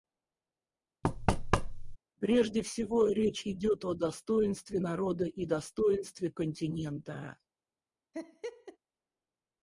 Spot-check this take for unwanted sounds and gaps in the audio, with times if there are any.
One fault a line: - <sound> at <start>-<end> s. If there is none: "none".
- thud at 1.0-2.0 s
- laugh at 8.1-8.8 s